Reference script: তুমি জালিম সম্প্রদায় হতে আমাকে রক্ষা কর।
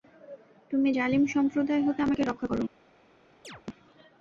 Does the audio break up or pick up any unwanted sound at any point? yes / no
yes